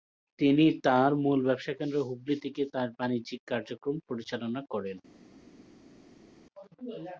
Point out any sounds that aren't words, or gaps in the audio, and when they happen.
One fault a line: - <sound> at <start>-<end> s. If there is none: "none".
none